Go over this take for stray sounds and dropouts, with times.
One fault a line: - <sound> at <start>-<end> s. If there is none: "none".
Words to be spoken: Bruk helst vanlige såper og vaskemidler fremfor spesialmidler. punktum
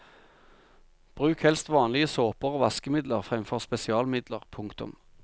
none